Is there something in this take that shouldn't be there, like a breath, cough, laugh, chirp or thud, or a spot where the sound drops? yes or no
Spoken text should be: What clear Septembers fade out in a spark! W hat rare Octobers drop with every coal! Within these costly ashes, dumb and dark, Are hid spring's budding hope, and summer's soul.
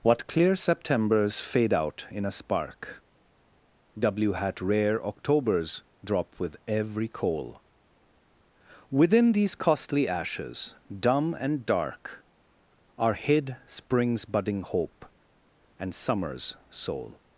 no